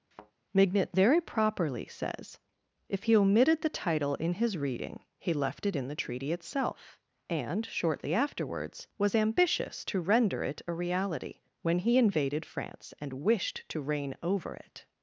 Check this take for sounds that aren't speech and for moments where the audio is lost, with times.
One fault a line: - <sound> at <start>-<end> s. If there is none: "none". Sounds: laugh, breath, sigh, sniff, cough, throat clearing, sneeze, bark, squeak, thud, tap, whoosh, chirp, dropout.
- thud at 0.1-0.3 s